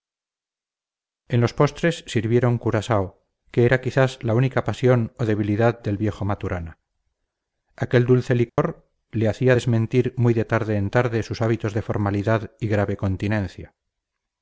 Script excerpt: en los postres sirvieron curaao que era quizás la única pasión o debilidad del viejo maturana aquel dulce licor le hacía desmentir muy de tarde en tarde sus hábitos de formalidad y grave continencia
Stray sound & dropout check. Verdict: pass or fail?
fail